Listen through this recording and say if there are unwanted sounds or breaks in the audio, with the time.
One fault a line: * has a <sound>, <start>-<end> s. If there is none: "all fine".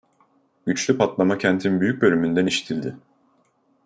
all fine